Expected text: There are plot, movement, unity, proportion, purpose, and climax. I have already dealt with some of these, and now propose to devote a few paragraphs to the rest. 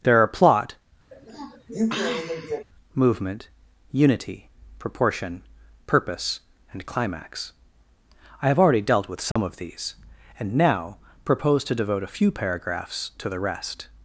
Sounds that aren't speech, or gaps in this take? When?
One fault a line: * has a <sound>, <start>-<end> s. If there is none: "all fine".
* has a sniff, 1.1-2.6 s
* has a dropout, 9.3-9.4 s